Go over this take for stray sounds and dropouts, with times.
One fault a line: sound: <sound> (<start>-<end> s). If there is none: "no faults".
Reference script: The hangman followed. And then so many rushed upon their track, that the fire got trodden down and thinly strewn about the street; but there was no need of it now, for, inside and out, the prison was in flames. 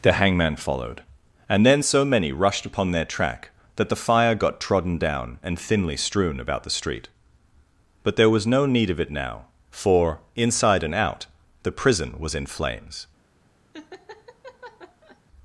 sound: laugh (13.7-15.2 s)